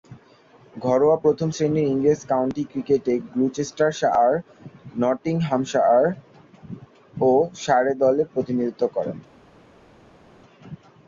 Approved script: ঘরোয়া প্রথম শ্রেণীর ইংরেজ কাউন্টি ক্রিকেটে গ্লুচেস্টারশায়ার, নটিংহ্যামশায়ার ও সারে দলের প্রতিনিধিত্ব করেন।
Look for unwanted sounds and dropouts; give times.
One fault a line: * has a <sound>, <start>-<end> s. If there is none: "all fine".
all fine